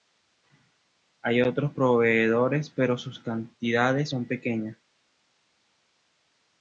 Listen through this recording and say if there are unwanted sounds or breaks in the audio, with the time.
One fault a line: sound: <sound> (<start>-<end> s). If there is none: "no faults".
no faults